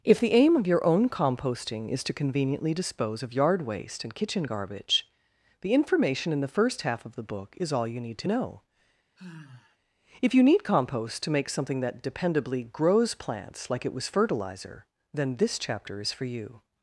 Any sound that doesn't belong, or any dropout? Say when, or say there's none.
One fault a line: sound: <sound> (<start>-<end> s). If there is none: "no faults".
sound: sigh (9.2-9.8 s)